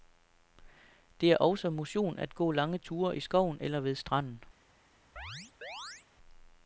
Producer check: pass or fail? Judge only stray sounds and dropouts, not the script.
fail